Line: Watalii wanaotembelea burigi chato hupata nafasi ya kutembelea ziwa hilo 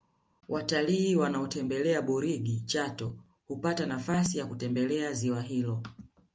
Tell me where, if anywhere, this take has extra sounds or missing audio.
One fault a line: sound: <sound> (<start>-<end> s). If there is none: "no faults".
no faults